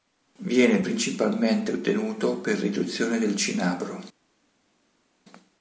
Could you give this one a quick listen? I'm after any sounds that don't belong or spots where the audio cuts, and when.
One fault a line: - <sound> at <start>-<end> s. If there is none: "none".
none